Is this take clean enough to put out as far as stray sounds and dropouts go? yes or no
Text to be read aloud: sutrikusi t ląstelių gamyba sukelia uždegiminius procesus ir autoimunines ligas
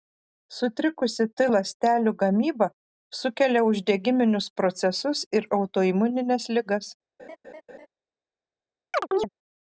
no